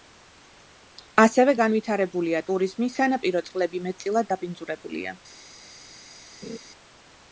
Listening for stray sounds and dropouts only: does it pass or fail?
fail